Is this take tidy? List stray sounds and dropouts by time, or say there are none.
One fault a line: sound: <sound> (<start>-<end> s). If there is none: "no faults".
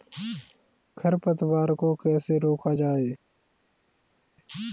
no faults